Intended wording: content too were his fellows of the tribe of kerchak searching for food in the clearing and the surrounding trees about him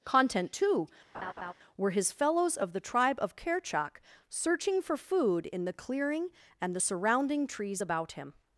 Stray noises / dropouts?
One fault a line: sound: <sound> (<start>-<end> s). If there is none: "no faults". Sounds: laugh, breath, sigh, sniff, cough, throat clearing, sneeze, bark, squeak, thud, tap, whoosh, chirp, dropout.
sound: laugh (1.1-1.5 s)